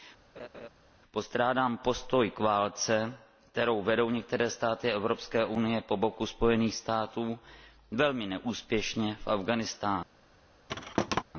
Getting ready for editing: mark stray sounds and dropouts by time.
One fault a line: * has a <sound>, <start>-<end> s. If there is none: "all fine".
* has a laugh, 0.4-0.7 s
* has a thud, 10.7-11.2 s